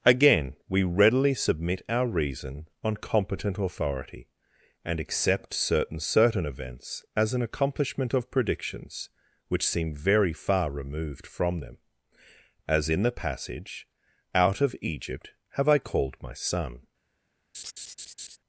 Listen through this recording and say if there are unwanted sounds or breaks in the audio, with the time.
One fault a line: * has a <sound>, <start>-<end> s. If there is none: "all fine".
* has a laugh, 17.5-18.4 s